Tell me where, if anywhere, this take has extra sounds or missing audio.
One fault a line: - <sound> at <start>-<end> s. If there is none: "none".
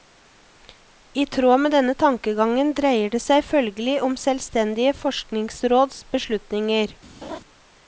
- laugh at 7.2-7.4 s